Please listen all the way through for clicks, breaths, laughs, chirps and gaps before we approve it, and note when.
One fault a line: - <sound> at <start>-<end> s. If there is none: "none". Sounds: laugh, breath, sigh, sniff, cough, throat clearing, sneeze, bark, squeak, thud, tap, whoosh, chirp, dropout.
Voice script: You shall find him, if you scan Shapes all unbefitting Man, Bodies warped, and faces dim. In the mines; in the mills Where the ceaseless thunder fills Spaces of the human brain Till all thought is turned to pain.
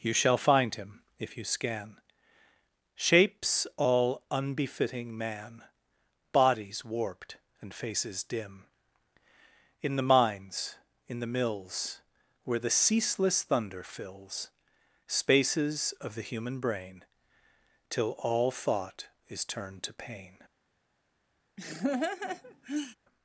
- laugh at 21.6-23.0 s